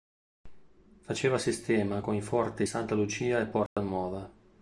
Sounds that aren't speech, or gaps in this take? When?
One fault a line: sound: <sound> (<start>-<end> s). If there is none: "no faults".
sound: dropout (3.7-3.8 s)